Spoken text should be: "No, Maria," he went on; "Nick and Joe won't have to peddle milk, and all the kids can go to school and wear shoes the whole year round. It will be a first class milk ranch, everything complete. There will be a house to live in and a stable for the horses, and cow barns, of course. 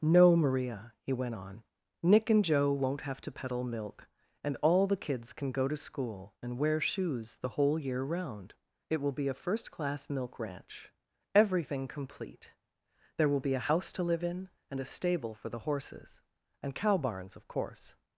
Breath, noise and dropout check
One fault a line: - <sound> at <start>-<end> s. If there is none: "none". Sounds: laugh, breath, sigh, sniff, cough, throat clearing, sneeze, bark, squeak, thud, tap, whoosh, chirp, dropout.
none